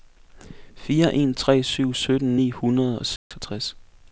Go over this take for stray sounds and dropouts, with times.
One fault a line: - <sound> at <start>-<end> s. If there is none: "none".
- dropout at 3.2-3.3 s